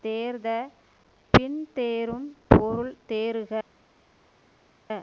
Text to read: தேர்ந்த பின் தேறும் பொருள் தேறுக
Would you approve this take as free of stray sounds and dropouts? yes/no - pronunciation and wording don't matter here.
yes